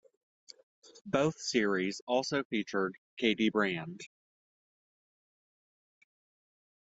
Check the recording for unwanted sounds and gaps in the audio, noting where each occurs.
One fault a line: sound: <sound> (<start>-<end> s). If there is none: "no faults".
no faults